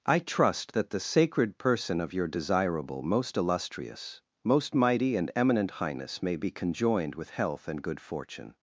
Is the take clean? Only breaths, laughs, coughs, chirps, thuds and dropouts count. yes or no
yes